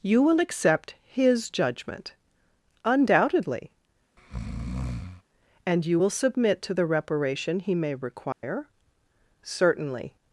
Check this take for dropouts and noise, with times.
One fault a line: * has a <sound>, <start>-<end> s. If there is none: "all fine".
* has a breath, 4.2-5.2 s
* has a dropout, 8.3-8.4 s